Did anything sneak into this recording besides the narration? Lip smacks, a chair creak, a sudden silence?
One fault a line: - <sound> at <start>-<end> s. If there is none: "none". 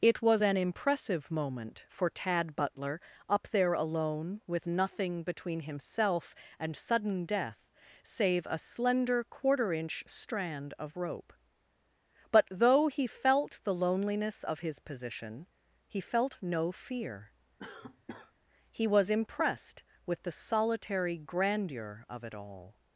- cough at 17.6-18.3 s